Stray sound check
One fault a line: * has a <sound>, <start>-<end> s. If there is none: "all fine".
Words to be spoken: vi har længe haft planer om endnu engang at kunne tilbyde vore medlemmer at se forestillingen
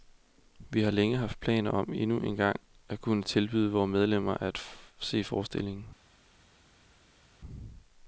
all fine